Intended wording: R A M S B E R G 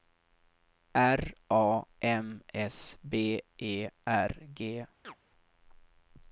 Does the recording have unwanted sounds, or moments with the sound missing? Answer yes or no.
yes